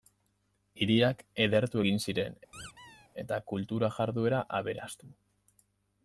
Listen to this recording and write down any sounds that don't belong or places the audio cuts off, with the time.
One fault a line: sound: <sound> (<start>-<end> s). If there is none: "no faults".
sound: squeak (2.5-3.1 s)